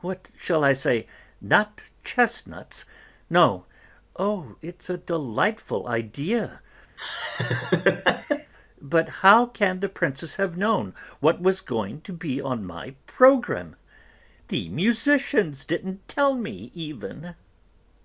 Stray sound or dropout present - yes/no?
yes